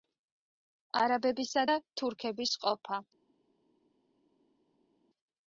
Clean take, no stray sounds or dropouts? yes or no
yes